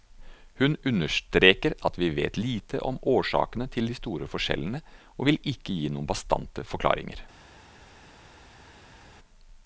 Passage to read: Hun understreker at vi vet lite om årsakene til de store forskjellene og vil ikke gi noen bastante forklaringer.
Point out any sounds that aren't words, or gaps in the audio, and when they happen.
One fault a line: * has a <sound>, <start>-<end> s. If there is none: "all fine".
all fine